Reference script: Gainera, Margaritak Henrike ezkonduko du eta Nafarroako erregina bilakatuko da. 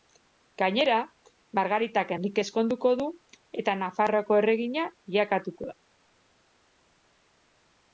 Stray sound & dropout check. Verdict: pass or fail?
pass